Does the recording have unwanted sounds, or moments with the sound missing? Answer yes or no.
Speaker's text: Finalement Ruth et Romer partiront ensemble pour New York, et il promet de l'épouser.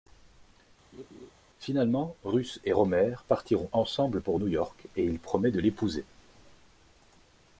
yes